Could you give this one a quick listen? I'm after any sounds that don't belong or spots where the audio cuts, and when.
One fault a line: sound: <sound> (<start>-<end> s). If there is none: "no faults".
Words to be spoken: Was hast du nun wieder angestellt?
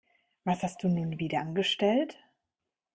no faults